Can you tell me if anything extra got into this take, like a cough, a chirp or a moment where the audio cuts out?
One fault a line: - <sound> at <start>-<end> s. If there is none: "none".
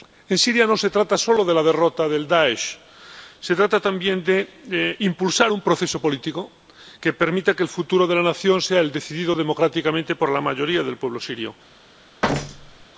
- thud at 12.2-12.9 s